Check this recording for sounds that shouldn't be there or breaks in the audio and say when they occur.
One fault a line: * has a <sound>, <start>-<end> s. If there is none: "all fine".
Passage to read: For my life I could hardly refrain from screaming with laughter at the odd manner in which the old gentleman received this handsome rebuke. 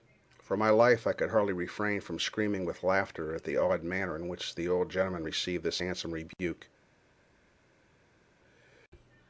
all fine